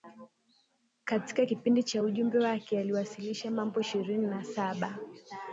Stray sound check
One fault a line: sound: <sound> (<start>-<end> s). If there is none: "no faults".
no faults